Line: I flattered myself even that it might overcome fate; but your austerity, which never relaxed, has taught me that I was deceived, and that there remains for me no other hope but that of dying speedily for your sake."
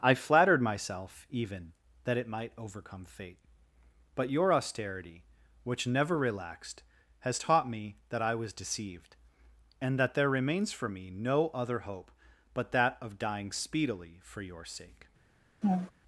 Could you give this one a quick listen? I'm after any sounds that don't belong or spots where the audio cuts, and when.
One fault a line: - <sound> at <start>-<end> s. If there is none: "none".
- laugh at 15.6-15.9 s